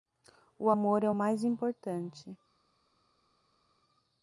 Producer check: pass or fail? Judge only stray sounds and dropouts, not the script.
pass